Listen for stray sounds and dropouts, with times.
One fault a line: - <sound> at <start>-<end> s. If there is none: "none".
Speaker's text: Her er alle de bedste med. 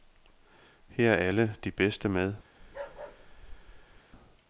- bark at 2.6-4.0 s